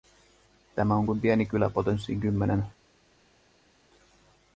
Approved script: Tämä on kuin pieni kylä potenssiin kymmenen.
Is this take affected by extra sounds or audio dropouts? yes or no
no